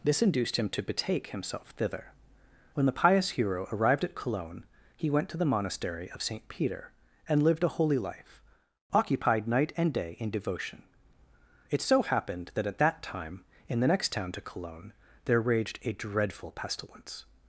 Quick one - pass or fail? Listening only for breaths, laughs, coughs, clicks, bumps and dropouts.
pass